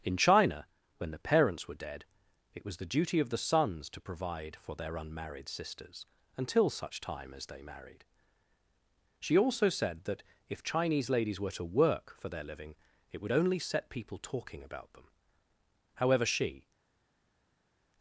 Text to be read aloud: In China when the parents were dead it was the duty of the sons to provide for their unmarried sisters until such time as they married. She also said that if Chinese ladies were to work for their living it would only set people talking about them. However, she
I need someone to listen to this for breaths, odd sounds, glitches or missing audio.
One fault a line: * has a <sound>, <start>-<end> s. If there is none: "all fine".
all fine